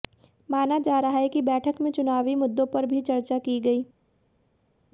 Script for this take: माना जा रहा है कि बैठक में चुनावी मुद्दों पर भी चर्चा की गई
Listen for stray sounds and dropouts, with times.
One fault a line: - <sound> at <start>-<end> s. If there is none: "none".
none